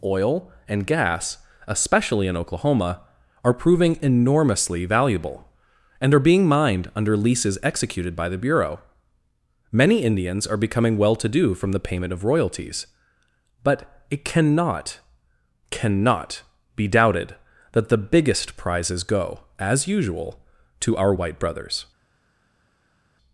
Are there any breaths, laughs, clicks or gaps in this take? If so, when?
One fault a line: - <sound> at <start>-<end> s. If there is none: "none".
none